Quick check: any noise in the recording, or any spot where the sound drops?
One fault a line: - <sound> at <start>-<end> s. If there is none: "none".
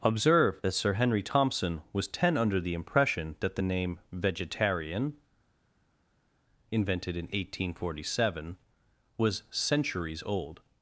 none